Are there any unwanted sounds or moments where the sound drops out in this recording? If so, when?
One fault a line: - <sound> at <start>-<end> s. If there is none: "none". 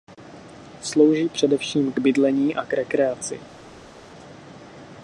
none